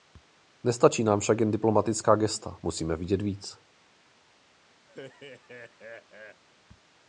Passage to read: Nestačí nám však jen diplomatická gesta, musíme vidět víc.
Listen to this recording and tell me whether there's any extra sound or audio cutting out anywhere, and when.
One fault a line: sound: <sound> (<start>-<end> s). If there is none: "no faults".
sound: laugh (4.9-6.4 s)